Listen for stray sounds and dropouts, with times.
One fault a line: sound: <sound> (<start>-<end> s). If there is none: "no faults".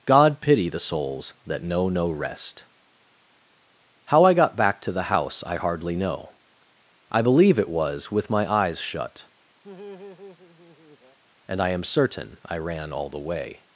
sound: laugh (9.6-11.2 s)